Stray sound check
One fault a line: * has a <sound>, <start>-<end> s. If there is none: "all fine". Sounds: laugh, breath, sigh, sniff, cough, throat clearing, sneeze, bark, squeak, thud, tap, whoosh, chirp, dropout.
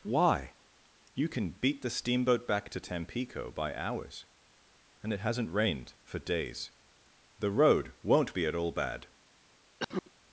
* has a cough, 9.8-10.1 s